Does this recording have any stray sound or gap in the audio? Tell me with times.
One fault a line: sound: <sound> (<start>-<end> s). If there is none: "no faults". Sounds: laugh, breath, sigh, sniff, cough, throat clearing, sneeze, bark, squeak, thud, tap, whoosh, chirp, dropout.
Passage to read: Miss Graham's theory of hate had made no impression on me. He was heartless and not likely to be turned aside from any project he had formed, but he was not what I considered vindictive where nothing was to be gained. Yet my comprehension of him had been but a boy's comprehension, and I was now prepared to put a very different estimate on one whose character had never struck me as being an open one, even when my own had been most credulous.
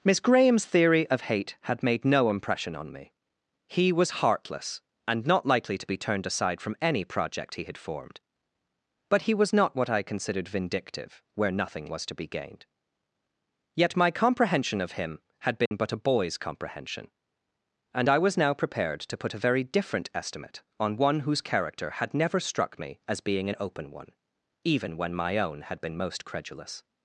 sound: dropout (15.7-15.7 s)